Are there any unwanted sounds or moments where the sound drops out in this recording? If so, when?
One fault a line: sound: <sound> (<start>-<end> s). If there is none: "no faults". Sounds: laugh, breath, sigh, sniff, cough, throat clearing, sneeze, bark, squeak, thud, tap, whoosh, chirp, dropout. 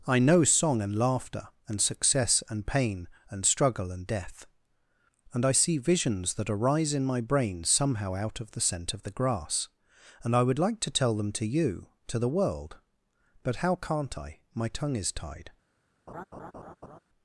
sound: laugh (16.1-17.0 s)